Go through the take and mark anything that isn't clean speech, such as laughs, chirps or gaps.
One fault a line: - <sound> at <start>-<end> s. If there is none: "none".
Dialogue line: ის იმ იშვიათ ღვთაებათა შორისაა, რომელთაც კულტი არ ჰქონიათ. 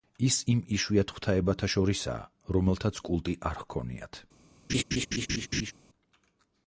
- laugh at 4.7-5.7 s